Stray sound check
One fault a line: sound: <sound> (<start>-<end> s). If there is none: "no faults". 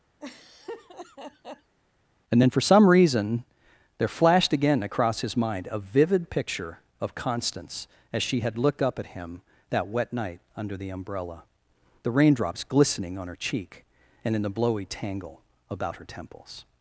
sound: laugh (0.2-1.7 s)